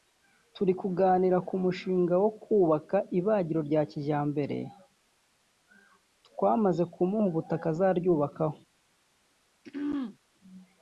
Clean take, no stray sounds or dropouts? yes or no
no